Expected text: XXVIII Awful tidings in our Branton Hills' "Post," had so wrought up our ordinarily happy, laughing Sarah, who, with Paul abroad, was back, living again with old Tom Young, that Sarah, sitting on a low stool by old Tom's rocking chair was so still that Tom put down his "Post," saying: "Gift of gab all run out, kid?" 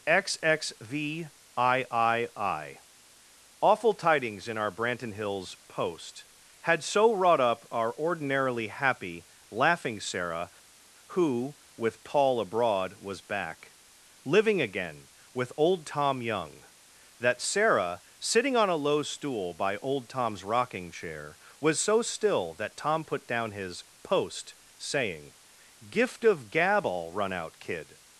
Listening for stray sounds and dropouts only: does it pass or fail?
pass